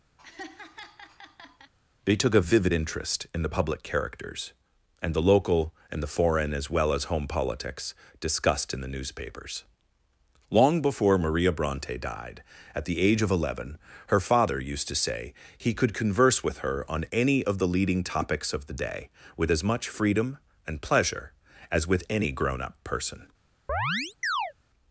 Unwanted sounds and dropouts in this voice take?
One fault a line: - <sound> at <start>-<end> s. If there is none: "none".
- laugh at 0.2-1.7 s
- chirp at 23.7-24.5 s